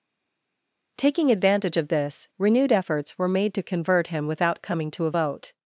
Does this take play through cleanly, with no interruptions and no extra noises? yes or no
yes